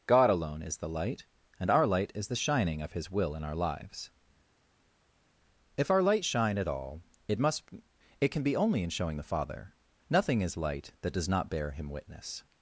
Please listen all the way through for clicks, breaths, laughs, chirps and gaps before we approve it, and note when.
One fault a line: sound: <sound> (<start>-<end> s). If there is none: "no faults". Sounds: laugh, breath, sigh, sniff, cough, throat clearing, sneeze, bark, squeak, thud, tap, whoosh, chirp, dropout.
no faults